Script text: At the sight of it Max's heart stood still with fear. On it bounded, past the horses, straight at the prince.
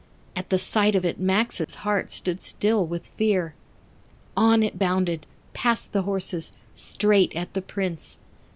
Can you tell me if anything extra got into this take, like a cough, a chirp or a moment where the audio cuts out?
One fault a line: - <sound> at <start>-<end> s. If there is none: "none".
- dropout at 1.6-1.7 s